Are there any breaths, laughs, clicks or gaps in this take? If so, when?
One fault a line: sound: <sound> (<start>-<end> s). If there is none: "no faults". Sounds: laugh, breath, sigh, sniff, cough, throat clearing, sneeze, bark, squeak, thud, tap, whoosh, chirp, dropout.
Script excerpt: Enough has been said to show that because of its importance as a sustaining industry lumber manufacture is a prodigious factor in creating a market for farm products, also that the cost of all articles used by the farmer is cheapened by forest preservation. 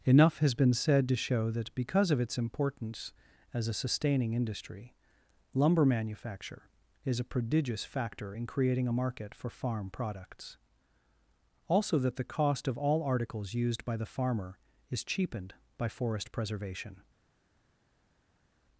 no faults